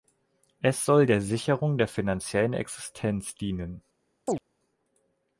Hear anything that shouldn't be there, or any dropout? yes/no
yes